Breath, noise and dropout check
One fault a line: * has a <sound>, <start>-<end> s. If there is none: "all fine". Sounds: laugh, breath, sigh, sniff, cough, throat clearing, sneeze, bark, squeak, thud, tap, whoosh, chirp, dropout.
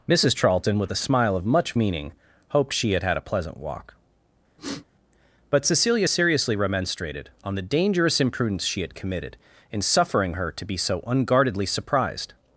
* has a sniff, 4.6-4.9 s